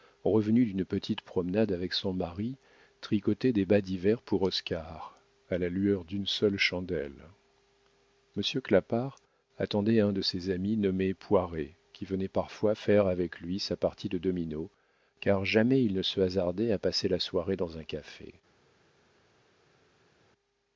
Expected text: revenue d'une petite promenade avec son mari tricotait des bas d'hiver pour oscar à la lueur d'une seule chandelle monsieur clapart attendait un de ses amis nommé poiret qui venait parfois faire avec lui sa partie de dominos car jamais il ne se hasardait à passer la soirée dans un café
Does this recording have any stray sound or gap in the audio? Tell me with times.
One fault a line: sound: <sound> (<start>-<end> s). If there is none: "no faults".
no faults